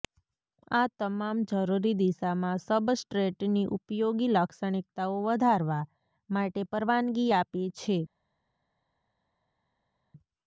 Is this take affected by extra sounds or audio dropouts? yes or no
no